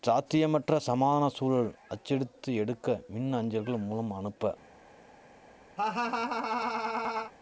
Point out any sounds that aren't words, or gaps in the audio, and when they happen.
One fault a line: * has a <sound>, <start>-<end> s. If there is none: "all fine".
* has a laugh, 5.8-7.3 s